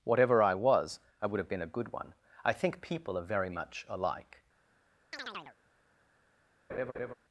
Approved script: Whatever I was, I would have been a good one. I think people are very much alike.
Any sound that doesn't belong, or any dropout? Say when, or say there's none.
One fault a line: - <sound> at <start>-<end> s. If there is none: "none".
- chirp at 5.1-5.6 s
- laugh at 6.7-7.1 s